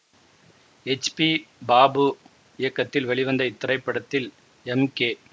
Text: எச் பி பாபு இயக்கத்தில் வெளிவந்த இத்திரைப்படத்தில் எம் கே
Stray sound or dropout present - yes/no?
no